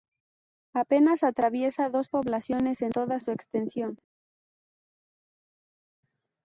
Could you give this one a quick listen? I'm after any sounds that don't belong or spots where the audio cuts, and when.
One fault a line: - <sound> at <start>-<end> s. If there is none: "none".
none